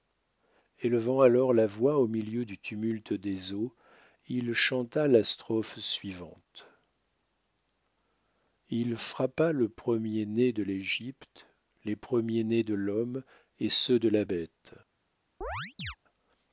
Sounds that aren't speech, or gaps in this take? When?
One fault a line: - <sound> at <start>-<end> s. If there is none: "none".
- chirp at 15.4-16.0 s